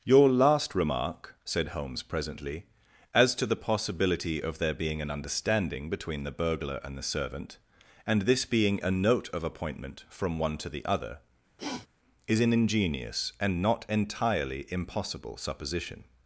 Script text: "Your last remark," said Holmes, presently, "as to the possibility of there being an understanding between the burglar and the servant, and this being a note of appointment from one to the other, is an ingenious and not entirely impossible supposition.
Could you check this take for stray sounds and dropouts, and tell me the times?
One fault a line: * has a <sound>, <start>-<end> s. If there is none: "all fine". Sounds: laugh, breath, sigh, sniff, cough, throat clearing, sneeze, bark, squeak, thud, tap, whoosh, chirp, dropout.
* has a sniff, 11.6-11.9 s